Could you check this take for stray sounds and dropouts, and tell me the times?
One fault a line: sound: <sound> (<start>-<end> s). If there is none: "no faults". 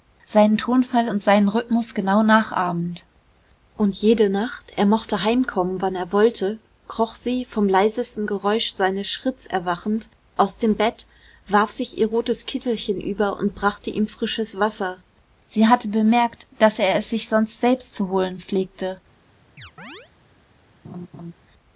sound: chirp (19.6-20.1 s)
sound: laugh (20.8-21.3 s)